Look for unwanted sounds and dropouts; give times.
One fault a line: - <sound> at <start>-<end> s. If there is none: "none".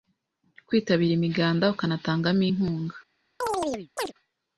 - chirp at 3.4-4.1 s